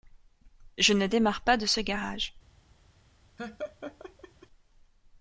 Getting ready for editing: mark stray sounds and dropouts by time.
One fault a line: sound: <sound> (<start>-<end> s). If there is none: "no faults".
sound: laugh (3.4-4.5 s)